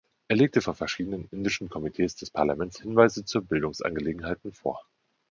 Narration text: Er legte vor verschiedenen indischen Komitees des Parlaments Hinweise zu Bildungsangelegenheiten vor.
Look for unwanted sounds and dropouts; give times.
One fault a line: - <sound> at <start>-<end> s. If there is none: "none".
none